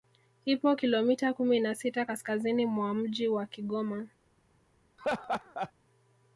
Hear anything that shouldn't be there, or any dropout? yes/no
yes